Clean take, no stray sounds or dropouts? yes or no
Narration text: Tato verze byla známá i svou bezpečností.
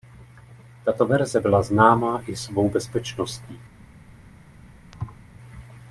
no